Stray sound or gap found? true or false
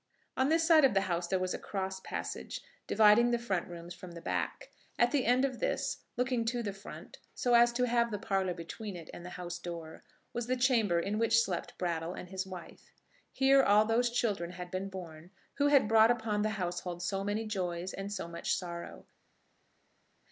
false